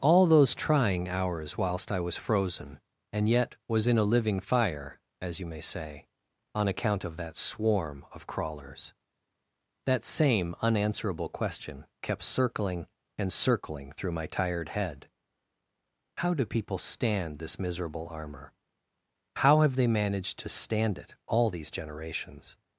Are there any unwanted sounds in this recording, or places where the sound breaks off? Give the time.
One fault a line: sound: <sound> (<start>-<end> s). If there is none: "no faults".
no faults